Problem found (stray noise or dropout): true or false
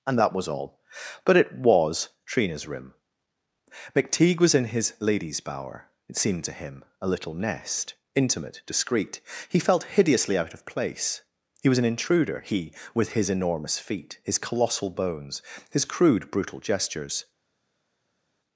false